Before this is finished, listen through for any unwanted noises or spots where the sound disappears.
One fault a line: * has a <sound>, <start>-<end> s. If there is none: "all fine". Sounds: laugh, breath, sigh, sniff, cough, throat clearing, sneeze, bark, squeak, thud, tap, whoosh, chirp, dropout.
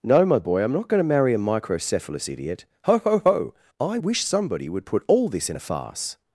all fine